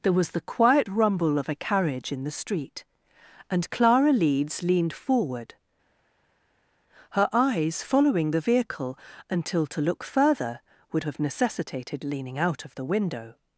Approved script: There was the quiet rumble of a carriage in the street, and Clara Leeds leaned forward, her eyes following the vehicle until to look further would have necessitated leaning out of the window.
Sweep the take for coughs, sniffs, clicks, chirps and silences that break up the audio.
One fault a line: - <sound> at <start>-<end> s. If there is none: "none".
none